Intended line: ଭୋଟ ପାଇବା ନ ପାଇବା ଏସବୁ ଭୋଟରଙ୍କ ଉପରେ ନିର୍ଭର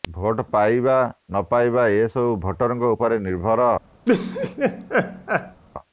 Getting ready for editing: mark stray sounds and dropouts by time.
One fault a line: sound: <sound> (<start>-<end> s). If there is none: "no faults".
sound: laugh (4.1-5.6 s)